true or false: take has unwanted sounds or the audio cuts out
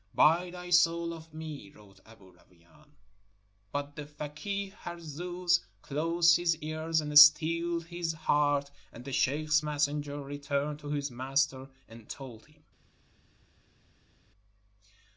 false